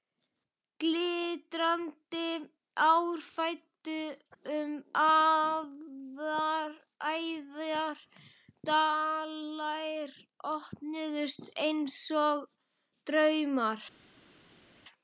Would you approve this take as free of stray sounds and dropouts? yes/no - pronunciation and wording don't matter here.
yes